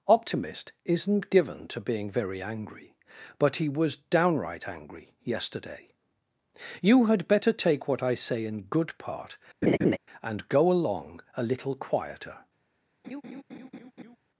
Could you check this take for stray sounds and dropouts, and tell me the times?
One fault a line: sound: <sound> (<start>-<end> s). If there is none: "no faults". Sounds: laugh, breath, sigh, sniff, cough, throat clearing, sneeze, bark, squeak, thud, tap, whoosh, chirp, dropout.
sound: laugh (9.6-10.0 s)
sound: laugh (13.0-14.2 s)